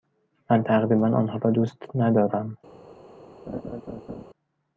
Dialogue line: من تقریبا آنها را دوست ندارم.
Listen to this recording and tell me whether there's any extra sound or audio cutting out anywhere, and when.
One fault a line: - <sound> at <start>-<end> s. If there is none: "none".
- laugh at 3.5-4.2 s